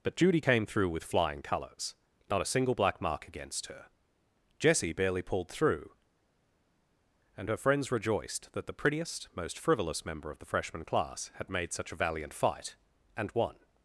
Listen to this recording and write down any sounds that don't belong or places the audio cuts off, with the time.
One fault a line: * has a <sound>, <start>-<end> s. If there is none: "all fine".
all fine